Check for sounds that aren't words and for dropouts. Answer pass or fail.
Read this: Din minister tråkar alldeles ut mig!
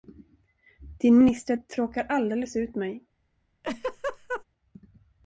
fail